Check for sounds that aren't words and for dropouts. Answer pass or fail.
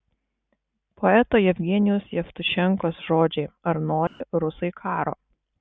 fail